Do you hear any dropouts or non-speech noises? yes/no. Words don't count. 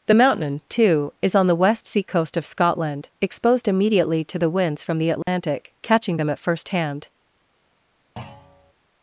yes